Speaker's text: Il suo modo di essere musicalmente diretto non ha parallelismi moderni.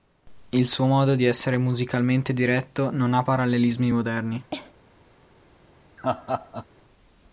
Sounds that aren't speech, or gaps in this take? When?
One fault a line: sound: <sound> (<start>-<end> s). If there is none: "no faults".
sound: cough (4.5-4.7 s)
sound: laugh (6.0-6.7 s)